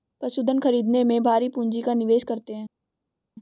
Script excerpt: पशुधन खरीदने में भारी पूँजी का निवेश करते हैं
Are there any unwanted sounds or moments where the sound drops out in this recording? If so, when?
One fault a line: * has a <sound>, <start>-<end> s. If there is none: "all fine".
all fine